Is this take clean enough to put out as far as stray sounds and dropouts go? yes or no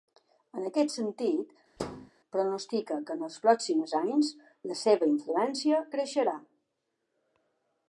no